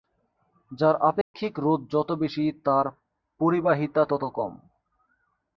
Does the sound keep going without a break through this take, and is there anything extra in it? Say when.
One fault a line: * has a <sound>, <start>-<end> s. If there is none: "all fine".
* has a dropout, 1.2-1.3 s